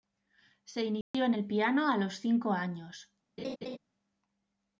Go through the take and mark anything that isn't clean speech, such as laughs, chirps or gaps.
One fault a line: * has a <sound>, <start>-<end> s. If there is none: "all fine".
* has a dropout, 1.0-1.1 s
* has a laugh, 3.4-3.8 s